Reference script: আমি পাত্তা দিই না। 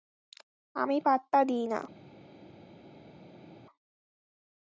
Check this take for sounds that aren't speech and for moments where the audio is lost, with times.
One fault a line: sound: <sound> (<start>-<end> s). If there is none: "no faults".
no faults